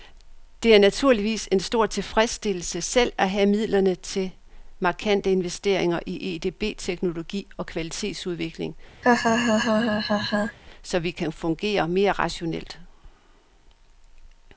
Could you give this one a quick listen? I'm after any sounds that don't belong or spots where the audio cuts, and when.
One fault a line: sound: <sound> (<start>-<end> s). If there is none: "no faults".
sound: laugh (9.0-10.6 s)